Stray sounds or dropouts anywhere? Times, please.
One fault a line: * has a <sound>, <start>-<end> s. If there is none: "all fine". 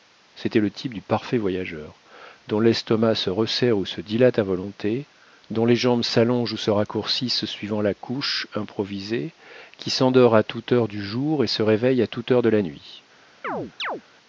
* has a chirp, 13.4-14.0 s